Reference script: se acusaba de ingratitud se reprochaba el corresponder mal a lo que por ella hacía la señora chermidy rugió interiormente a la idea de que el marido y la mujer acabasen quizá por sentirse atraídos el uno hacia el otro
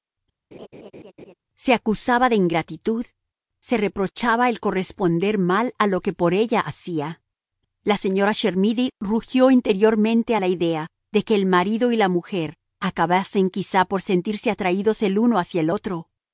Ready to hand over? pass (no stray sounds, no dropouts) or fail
fail